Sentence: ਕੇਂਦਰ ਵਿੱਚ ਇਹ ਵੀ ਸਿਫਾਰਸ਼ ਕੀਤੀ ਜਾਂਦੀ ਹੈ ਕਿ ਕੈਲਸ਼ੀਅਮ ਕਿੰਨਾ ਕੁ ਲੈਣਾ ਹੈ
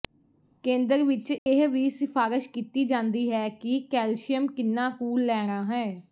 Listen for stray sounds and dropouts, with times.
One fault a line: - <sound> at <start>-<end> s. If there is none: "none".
- dropout at 1.4-1.5 s